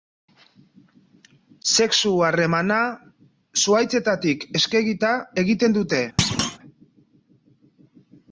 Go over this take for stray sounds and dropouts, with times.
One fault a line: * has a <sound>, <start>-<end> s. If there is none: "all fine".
* has a thud, 6.2-6.6 s